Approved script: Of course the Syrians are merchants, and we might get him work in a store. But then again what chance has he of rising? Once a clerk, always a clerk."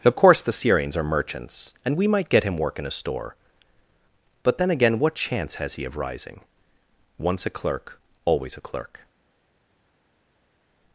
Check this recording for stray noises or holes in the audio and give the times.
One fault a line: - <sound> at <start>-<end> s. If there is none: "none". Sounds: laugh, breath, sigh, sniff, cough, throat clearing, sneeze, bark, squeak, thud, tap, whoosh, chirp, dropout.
none